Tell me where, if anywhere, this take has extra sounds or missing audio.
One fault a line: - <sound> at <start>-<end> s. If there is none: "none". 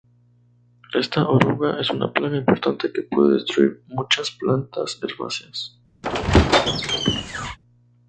- squeak at 6.0-7.6 s